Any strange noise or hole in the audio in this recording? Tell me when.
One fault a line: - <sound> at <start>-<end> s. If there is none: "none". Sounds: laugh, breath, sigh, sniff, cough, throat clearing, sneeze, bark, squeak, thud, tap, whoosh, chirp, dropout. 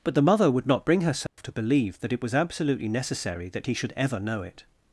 - dropout at 1.3-1.4 s